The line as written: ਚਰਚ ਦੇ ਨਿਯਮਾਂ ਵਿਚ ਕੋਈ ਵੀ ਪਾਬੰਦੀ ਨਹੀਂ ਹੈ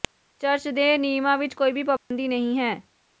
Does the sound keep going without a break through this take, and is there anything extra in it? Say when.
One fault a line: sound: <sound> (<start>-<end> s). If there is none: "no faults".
sound: dropout (2.0-2.1 s)